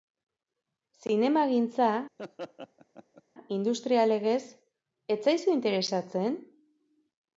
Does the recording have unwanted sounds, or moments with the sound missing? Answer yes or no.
yes